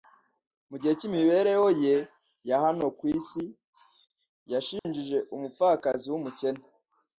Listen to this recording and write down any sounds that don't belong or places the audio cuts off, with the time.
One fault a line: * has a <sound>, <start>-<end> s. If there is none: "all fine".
* has a dropout, 4.8-4.8 s